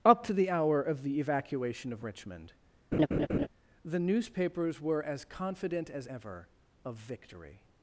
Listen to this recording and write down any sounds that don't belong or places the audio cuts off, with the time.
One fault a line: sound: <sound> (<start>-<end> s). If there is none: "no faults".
sound: laugh (2.9-3.5 s)